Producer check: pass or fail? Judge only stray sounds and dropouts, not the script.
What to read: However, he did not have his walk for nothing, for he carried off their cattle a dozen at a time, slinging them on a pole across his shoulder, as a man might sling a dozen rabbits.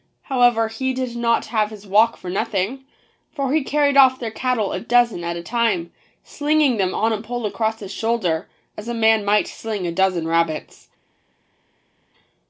pass